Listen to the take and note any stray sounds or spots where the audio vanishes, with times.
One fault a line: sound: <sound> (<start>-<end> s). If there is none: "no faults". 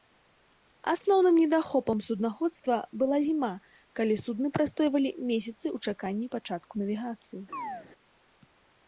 sound: chirp (7.5-7.9 s)